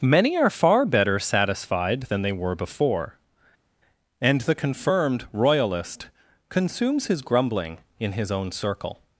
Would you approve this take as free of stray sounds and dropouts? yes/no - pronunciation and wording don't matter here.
yes